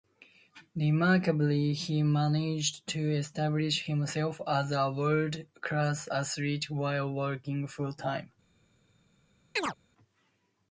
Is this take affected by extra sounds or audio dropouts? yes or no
yes